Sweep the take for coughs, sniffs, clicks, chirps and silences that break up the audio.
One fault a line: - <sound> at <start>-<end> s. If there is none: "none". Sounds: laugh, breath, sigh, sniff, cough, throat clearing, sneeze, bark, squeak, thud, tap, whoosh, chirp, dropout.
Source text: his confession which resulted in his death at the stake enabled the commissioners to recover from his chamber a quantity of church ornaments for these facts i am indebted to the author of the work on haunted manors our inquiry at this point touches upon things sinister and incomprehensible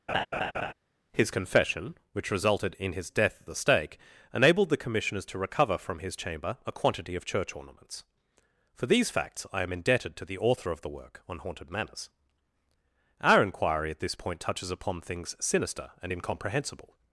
- laugh at 0.1-0.7 s